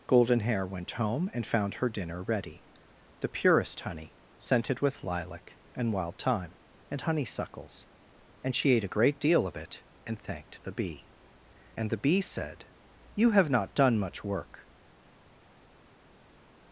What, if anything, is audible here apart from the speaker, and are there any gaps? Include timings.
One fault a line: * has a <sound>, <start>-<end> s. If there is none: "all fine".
all fine